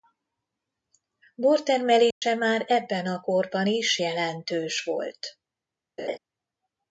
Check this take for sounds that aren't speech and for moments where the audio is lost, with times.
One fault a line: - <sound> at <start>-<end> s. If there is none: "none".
- dropout at 2.1-2.2 s
- laugh at 6.0-6.2 s